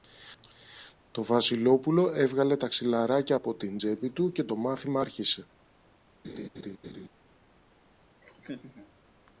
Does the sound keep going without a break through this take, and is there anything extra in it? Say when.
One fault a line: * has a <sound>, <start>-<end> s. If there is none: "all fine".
* has a laugh, 6.2-7.1 s
* has a laugh, 8.2-8.9 s